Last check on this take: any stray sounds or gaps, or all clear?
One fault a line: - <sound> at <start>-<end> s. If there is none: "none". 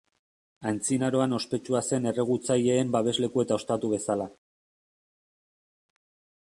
none